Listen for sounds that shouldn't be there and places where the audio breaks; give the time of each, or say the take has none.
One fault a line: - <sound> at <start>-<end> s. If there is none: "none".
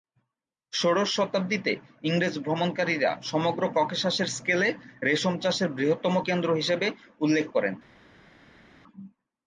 none